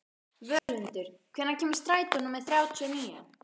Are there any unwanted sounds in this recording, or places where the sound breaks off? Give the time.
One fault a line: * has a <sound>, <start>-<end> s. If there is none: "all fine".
* has a dropout, 0.6-0.7 s